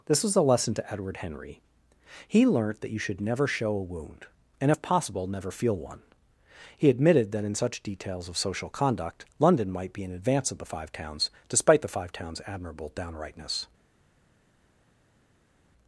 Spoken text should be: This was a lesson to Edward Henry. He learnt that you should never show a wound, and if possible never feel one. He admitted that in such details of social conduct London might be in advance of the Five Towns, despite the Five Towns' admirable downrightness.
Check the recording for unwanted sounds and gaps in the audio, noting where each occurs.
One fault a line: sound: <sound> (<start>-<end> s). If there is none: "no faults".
no faults